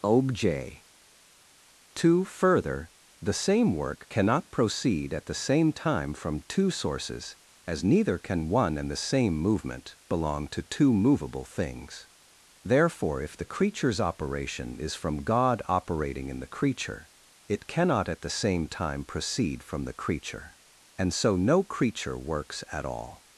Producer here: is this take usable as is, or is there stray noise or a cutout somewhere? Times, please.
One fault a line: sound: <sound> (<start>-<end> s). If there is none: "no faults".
no faults